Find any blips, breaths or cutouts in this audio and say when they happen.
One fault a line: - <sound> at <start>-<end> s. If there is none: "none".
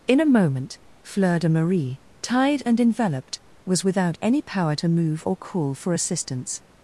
none